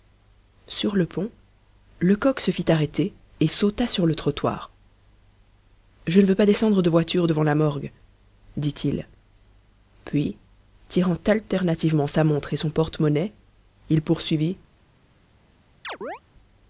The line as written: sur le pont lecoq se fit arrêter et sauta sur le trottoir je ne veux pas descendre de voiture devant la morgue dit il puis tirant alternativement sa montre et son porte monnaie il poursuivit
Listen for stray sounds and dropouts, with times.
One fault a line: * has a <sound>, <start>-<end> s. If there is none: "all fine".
* has a chirp, 15.8-16.2 s